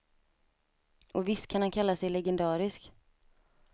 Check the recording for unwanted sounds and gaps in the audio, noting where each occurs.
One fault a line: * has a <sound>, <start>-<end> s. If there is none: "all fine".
all fine